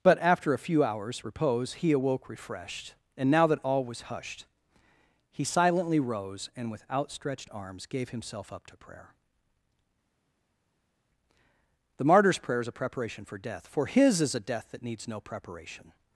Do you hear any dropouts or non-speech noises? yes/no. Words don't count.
no